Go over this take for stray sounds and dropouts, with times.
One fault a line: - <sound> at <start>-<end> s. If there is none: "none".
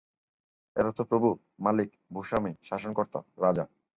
none